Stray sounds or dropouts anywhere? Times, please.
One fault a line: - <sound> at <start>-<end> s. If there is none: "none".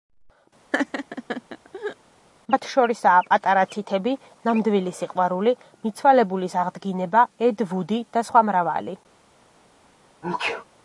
- laugh at 0.7-2.0 s
- sneeze at 10.2-10.6 s